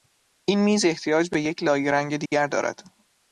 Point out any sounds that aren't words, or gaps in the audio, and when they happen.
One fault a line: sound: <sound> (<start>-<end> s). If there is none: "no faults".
sound: dropout (2.3-2.3 s)